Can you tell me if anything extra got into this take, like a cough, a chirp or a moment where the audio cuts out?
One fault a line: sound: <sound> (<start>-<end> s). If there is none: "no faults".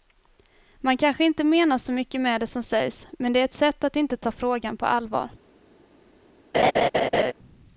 sound: laugh (6.5-7.3 s)